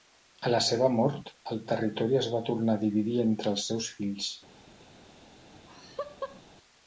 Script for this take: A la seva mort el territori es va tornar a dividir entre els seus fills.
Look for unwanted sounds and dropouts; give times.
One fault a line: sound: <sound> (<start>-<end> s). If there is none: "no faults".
sound: laugh (5.5-6.4 s)